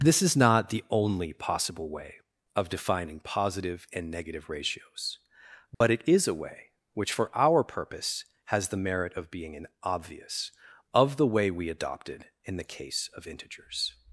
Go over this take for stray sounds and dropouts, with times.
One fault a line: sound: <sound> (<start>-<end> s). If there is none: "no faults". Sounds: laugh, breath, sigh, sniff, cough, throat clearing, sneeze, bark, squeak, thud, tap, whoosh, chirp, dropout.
sound: dropout (5.7-5.8 s)